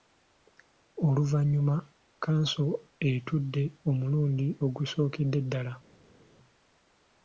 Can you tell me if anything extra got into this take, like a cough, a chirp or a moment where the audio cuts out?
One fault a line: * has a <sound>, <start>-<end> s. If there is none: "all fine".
all fine